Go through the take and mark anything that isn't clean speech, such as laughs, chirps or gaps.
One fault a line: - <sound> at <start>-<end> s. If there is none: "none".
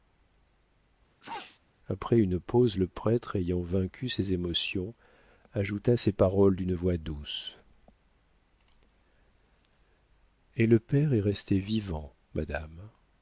- sneeze at 1.2-1.6 s